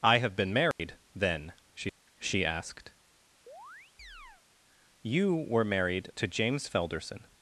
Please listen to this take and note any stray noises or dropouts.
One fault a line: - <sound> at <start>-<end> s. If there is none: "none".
- dropout at 0.7-0.8 s
- chirp at 3.5-4.4 s